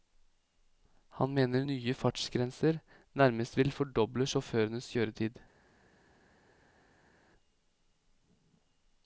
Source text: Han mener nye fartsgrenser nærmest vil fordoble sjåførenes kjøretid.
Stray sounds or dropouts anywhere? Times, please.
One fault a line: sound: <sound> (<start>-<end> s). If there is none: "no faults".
no faults